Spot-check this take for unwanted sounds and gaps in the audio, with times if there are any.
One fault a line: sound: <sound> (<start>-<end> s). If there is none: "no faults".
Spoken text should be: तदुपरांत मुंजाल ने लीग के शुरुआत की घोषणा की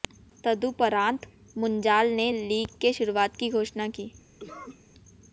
sound: cough (4.4-4.8 s)